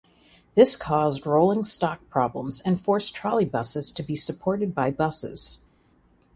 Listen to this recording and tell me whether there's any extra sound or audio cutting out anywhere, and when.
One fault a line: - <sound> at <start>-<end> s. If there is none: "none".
none